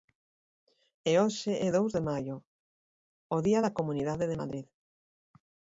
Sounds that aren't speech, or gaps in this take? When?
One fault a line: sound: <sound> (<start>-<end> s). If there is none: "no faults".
no faults